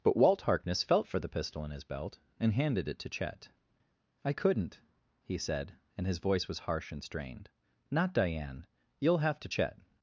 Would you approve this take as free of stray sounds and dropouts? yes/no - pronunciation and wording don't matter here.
yes